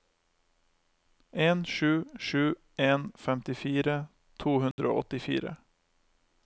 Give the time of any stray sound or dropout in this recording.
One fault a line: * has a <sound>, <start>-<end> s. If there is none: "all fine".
* has a dropout, 4.7-4.8 s